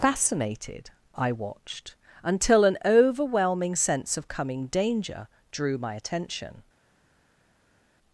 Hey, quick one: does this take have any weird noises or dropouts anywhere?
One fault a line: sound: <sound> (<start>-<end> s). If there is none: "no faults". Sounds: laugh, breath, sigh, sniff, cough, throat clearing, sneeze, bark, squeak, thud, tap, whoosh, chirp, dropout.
no faults